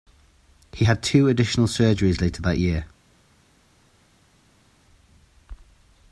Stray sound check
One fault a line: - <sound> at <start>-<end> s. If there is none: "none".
none